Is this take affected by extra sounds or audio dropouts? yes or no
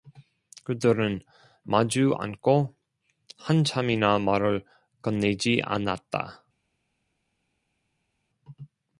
no